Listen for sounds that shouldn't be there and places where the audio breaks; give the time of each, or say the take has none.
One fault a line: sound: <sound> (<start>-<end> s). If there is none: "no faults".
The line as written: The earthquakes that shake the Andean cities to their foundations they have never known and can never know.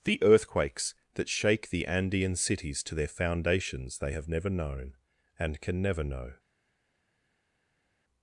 no faults